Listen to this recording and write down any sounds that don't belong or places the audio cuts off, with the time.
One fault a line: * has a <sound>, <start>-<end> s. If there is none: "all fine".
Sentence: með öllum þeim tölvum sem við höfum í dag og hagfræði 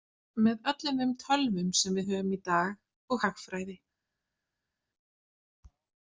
all fine